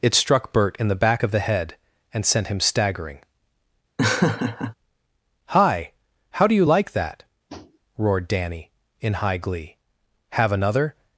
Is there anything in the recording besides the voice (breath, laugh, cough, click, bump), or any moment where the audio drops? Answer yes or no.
yes